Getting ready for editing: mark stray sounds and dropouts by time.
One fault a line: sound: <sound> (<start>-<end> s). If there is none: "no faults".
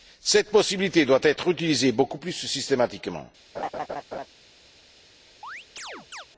sound: laugh (3.5-4.3 s)
sound: chirp (5.4-6.3 s)